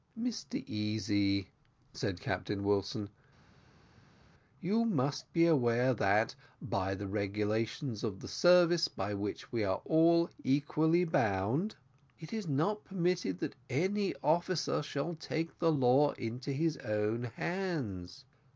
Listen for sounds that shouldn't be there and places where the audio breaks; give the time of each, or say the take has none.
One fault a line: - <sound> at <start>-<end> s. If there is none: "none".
none